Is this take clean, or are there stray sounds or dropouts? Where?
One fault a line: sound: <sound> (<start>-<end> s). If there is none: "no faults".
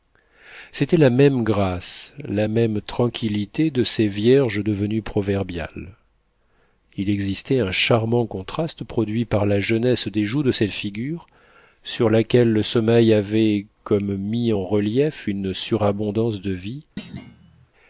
sound: thud (17.0-17.7 s)